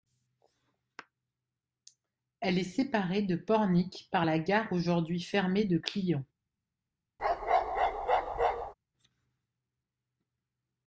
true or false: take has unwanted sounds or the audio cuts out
true